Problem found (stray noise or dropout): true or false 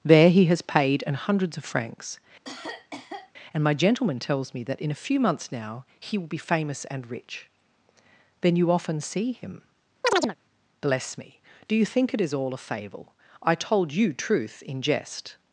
true